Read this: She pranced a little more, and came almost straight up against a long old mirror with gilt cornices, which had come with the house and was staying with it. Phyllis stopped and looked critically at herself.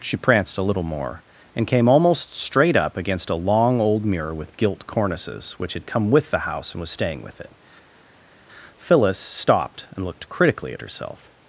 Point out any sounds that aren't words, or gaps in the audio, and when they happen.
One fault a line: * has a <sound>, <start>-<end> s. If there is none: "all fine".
all fine